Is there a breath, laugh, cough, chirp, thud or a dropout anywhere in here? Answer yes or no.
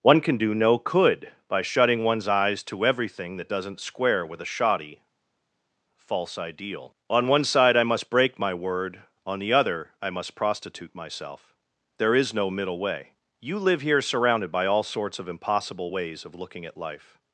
no